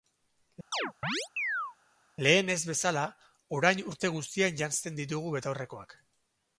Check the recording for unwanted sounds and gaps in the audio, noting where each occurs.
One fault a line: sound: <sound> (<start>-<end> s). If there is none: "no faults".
sound: chirp (0.7-1.8 s)